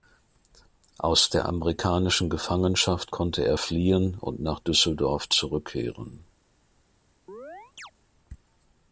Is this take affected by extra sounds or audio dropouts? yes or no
yes